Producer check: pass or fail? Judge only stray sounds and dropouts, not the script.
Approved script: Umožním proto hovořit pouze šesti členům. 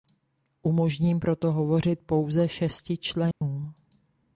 fail